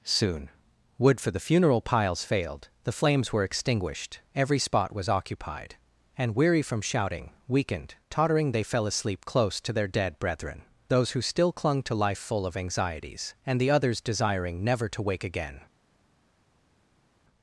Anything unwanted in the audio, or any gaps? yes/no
no